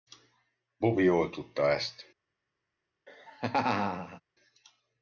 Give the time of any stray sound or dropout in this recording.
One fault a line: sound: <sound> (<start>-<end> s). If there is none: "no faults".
sound: laugh (3.1-4.2 s)